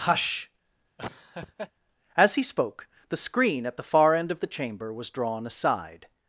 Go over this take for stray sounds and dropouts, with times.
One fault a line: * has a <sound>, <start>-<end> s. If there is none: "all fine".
* has a laugh, 1.0-1.7 s